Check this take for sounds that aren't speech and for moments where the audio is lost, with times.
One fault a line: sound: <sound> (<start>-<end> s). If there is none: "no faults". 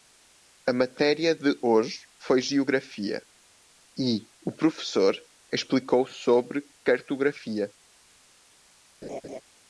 sound: laugh (9.0-9.4 s)